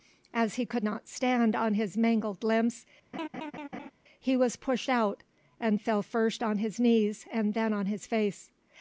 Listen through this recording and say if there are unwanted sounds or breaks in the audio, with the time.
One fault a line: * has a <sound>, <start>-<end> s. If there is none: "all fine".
* has a laugh, 3.1-3.9 s